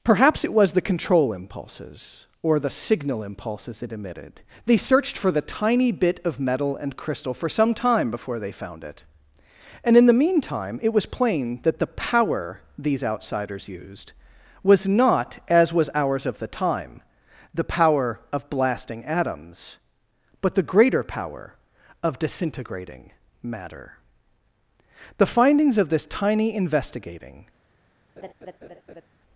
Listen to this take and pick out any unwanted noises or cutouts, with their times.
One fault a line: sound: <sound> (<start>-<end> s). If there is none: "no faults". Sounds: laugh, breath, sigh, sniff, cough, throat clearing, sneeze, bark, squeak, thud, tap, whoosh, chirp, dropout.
sound: laugh (28.2-29.1 s)